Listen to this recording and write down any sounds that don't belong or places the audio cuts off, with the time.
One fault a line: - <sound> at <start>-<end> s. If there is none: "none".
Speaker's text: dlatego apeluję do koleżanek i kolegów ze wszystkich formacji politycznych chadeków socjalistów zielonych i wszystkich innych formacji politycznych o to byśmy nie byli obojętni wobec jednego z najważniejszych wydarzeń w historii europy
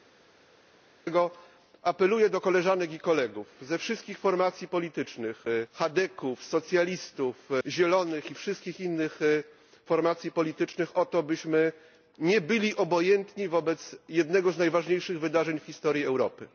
none